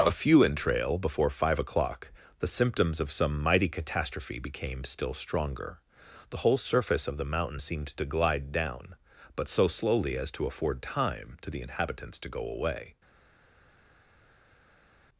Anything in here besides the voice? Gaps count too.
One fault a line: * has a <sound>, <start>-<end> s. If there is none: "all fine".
all fine